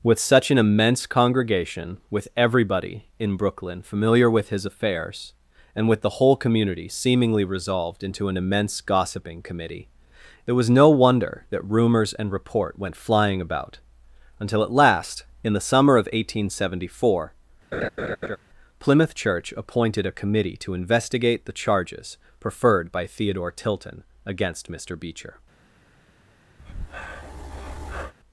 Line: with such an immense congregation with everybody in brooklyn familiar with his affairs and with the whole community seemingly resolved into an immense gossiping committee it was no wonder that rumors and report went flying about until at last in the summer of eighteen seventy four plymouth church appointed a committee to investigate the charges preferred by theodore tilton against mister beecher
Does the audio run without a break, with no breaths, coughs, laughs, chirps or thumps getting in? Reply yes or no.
no